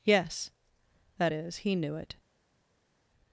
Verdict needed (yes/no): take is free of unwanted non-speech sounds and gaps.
yes